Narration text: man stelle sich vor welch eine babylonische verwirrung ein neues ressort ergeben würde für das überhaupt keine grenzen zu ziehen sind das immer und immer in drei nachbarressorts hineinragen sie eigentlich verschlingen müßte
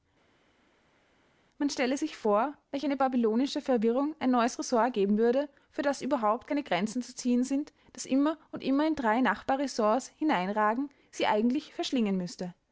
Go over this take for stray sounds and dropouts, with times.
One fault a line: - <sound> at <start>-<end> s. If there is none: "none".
none